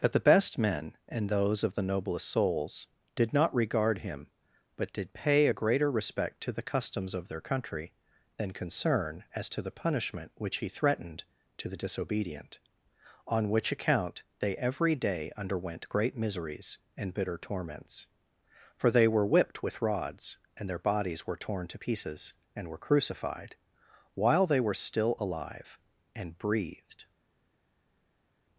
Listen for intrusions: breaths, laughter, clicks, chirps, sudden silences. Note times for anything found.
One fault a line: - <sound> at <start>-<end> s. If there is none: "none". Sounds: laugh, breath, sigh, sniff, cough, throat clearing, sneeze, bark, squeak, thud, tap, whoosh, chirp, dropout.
none